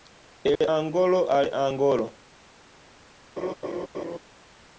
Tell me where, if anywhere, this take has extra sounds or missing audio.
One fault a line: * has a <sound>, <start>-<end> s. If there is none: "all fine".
* has a dropout, 0.6-0.6 s
* has a laugh, 3.4-4.2 s